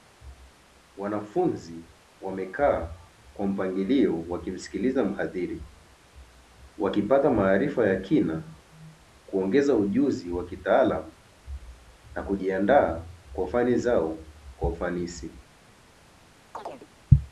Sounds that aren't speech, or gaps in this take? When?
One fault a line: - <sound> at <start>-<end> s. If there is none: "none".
- chirp at 16.5-16.9 s